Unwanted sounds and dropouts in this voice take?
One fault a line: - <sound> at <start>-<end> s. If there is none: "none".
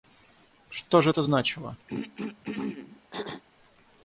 - throat clearing at 1.9-3.4 s